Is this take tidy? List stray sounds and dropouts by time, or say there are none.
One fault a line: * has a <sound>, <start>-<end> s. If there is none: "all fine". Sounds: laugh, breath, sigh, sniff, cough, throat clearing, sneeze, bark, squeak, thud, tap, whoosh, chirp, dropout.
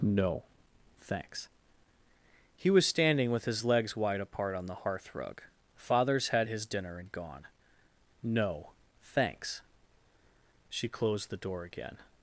all fine